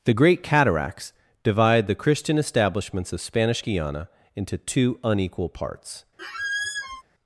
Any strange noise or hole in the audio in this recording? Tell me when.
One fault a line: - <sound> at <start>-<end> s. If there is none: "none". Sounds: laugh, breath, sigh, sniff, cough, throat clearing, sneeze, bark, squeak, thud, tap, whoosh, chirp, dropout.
- squeak at 6.2-7.0 s